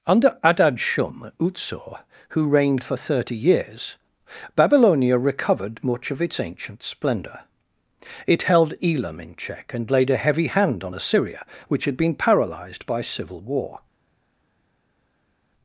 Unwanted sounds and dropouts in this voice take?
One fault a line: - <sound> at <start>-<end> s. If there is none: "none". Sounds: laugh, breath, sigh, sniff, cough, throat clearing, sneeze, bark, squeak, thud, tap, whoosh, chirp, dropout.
none